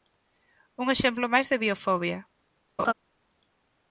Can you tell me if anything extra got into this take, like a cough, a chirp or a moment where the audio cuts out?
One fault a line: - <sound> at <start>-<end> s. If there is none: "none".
- laugh at 2.8-2.9 s